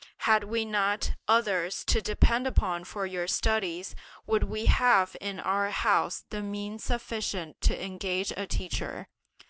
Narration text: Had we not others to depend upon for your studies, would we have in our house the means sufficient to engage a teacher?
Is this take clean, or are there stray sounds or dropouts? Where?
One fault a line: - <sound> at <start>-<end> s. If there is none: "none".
none